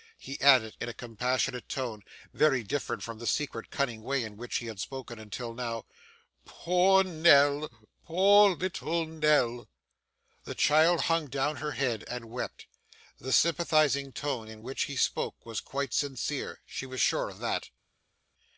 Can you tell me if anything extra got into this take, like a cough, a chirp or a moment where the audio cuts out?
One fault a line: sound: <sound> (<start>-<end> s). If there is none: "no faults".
no faults